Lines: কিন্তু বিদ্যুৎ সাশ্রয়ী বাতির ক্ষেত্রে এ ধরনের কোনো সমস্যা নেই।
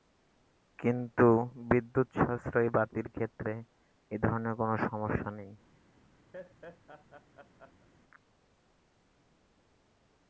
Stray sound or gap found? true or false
true